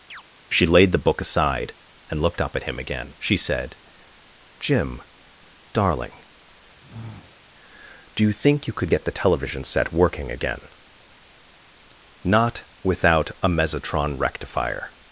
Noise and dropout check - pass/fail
fail